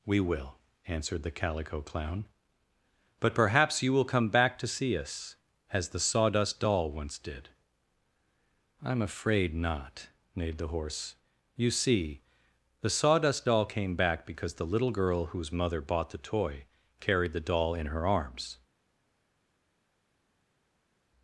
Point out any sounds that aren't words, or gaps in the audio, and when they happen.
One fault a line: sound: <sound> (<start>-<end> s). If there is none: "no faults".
no faults